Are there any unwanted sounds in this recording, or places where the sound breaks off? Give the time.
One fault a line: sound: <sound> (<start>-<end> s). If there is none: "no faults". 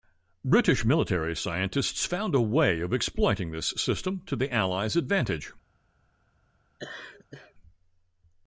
sound: laugh (6.8-7.5 s)